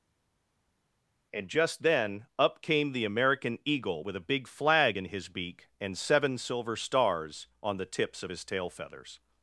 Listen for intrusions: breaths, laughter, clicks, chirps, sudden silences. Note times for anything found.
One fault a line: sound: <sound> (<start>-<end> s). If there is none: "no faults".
no faults